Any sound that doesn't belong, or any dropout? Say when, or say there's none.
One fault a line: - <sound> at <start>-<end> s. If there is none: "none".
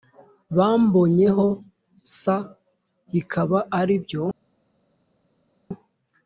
none